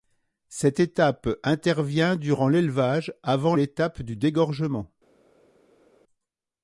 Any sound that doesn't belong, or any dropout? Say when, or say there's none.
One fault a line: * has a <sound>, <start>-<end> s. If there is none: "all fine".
all fine